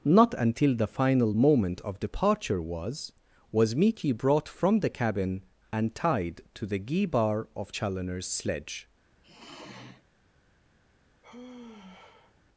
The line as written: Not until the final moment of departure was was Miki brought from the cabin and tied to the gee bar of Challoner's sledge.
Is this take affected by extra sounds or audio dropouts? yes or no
yes